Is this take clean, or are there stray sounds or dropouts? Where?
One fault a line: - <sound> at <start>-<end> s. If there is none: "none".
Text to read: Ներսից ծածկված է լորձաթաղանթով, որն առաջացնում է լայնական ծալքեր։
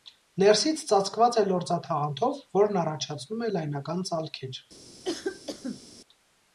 - cough at 5.0-5.8 s